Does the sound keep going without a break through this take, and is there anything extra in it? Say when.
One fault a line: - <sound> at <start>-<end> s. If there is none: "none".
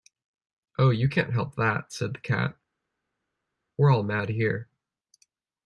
none